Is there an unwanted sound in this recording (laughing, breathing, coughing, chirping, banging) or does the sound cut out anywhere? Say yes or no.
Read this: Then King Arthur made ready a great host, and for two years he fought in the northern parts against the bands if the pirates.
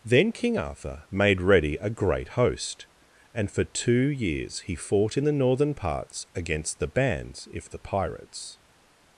no